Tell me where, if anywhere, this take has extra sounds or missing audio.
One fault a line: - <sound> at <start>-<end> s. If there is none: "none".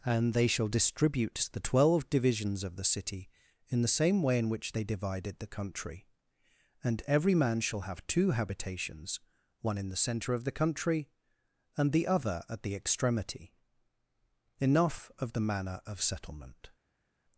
none